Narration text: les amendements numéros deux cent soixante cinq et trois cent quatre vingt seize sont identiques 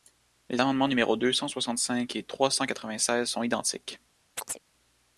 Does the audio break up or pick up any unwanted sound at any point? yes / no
yes